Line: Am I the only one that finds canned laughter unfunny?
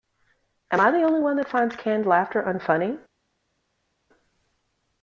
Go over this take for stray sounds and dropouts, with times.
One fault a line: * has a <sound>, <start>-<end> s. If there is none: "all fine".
all fine